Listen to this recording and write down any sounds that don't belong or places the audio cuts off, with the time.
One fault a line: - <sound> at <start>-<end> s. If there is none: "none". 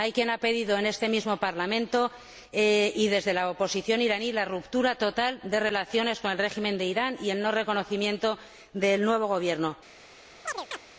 - chirp at 10.4-10.8 s